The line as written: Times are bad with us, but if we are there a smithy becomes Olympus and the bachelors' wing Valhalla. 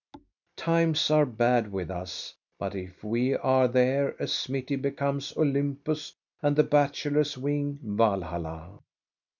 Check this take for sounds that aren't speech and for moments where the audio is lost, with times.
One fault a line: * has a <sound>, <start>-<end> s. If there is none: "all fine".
* has a thud, 0.1-0.3 s